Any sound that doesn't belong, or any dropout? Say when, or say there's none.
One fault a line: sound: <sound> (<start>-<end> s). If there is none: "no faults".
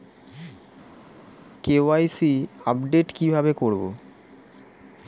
no faults